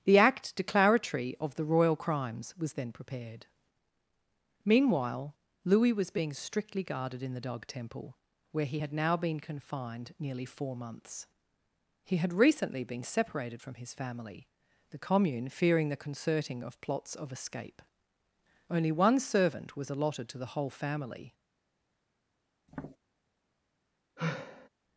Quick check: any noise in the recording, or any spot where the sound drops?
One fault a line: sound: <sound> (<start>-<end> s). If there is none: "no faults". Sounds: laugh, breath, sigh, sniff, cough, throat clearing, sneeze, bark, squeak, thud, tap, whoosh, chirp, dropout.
sound: tap (22.7-23.0 s)
sound: sigh (24.2-24.7 s)